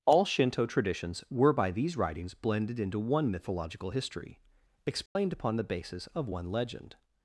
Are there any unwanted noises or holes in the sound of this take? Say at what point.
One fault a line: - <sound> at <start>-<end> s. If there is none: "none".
- dropout at 5.1-5.2 s